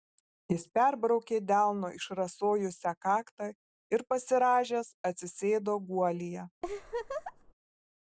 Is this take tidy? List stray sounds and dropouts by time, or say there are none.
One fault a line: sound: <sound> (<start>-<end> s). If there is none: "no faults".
sound: laugh (6.6-7.5 s)